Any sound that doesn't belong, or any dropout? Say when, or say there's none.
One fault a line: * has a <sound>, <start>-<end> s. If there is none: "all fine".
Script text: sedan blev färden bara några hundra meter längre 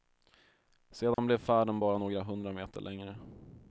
* has a dropout, 1.1-1.2 s